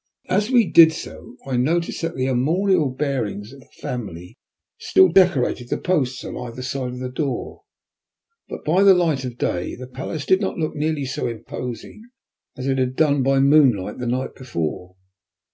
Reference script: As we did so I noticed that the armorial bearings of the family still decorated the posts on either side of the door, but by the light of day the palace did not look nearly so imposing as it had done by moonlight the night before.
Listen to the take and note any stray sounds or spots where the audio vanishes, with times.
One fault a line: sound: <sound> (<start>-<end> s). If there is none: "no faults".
no faults